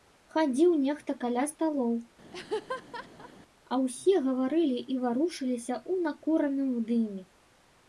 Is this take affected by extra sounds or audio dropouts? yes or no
yes